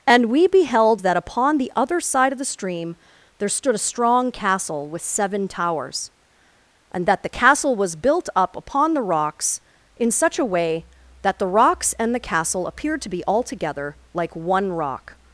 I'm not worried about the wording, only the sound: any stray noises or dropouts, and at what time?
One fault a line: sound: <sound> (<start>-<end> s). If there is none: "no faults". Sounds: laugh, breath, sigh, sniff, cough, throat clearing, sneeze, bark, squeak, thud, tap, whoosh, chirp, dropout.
no faults